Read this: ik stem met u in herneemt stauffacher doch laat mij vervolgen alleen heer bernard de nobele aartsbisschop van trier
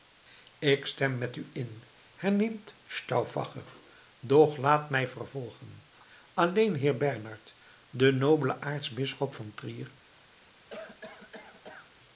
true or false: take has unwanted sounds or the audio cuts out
true